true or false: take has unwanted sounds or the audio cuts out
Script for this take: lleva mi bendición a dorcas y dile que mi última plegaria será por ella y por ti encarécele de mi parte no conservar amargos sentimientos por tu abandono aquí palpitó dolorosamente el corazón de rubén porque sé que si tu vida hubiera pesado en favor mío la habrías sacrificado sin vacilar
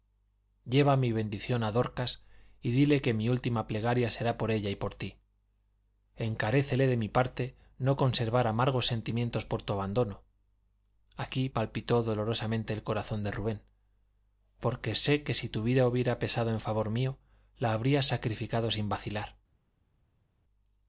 false